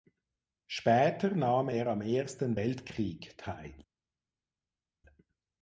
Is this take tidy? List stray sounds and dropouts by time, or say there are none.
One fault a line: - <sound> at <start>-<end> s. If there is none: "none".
none